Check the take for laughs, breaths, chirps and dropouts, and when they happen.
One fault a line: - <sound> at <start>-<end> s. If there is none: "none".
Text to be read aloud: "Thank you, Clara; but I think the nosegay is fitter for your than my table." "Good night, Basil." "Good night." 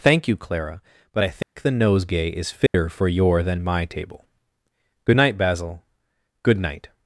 - dropout at 1.4-1.6 s
- dropout at 2.7-2.7 s